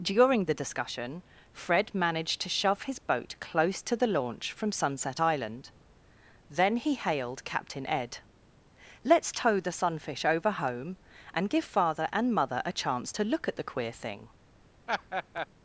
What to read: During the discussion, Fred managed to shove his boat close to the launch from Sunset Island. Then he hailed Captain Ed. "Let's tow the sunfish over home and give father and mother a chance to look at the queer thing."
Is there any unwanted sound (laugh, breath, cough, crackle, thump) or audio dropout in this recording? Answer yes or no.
yes